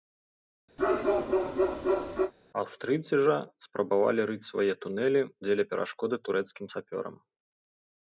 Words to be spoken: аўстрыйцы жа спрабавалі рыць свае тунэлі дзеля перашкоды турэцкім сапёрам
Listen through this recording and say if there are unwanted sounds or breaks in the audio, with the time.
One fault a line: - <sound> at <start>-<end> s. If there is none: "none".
- bark at 0.8-2.3 s